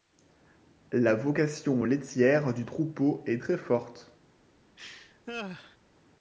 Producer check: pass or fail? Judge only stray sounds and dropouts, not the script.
fail